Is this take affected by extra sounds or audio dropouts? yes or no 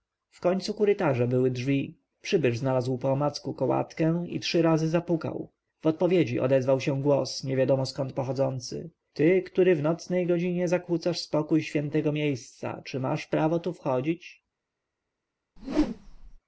yes